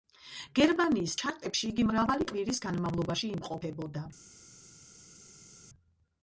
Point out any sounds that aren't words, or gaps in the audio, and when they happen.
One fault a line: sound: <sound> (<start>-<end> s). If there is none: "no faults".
no faults